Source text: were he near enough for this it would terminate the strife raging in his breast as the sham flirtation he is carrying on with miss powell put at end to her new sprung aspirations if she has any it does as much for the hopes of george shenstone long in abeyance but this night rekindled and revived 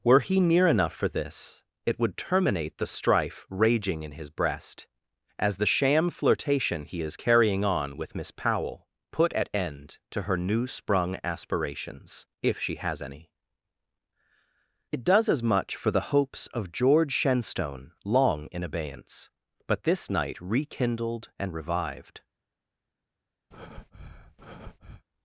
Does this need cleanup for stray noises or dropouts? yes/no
yes